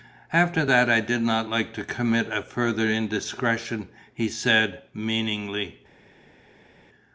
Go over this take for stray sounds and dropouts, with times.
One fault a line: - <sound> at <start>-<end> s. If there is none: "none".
none